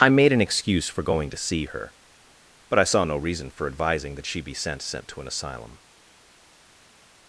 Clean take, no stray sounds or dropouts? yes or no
yes